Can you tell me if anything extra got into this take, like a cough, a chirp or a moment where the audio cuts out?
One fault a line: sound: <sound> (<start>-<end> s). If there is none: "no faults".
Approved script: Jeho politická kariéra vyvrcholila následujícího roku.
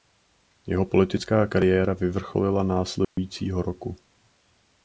sound: dropout (3.0-3.2 s)